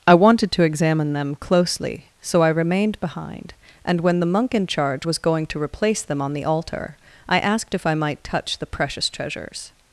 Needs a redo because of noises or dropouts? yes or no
no